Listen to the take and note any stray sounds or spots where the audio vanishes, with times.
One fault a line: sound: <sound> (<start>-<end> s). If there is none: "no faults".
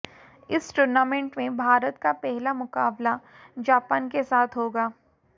no faults